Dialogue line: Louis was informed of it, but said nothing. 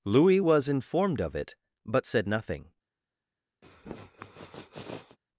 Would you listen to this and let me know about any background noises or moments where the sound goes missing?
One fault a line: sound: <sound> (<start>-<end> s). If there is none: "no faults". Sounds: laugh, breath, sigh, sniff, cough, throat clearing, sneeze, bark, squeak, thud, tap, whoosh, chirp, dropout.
sound: sniff (3.6-5.2 s)